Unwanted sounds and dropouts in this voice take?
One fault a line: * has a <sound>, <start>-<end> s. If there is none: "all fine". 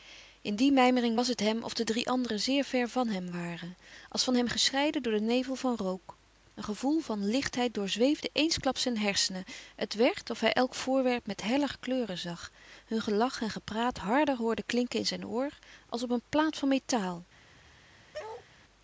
* has a bark, 18.1-18.5 s